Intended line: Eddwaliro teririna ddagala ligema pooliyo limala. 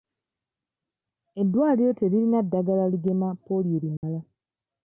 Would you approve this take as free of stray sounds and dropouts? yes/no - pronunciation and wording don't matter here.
no